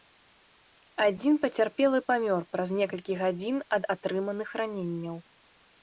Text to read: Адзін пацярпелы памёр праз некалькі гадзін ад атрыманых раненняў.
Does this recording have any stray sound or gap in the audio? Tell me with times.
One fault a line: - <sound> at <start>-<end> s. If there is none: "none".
none